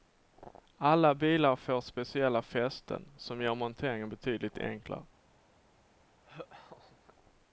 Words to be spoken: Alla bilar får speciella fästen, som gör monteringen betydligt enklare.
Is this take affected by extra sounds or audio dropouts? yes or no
yes